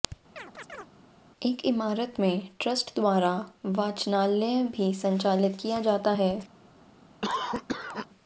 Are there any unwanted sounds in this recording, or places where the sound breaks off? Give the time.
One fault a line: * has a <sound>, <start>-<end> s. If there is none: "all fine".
* has a chirp, 0.4-0.9 s
* has a cough, 7.2-8.1 s